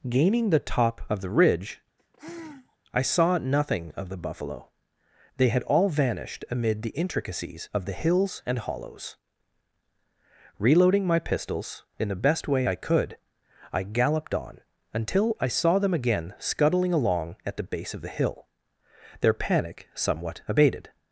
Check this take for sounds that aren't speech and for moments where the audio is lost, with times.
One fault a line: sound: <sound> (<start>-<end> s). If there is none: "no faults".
sound: sigh (2.0-2.8 s)